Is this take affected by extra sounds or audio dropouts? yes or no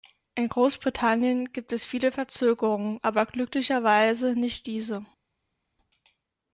no